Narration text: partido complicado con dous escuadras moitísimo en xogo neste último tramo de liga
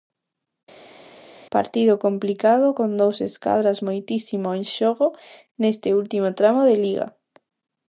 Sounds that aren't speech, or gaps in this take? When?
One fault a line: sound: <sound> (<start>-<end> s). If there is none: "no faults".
no faults